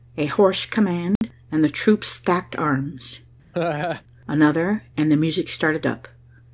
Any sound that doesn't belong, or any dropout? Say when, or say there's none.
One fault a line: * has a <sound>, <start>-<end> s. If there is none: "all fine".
* has a dropout, 1.2-1.2 s
* has a laugh, 3.5-4.0 s